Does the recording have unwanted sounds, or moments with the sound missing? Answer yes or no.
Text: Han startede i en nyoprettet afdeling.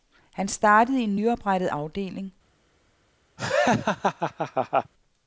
yes